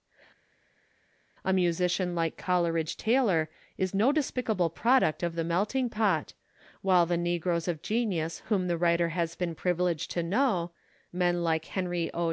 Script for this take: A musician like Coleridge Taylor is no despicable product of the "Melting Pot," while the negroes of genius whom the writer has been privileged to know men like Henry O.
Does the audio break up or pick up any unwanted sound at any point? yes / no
no